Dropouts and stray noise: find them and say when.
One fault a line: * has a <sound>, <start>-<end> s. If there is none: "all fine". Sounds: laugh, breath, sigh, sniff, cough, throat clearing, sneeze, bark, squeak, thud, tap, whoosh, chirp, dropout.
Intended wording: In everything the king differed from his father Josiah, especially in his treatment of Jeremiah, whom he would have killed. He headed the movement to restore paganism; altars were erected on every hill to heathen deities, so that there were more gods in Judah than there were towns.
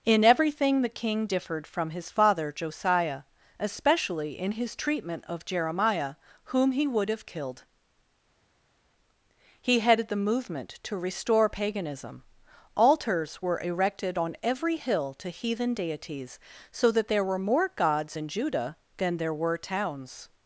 all fine